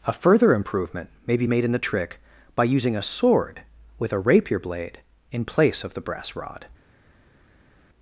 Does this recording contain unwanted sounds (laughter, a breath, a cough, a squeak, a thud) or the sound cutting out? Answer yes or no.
no